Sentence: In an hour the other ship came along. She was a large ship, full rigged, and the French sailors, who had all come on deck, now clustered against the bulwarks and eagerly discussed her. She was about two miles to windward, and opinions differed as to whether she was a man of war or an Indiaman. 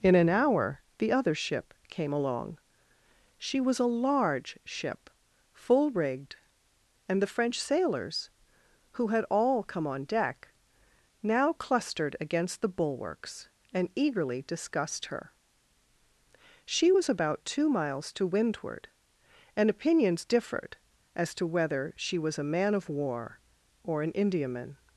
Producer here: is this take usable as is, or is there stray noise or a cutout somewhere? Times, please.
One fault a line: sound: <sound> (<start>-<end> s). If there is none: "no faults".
no faults